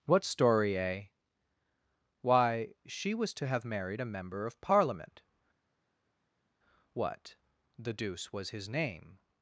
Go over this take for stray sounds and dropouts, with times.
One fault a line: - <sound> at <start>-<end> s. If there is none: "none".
none